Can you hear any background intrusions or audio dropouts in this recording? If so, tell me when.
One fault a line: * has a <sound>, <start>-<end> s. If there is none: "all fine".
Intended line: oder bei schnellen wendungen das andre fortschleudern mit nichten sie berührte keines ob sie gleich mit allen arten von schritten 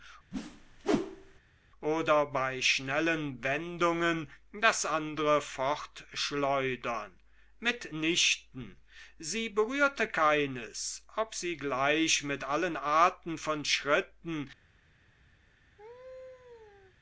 * has a whoosh, 0.3-1.4 s
* has a laugh, 15.8-17.0 s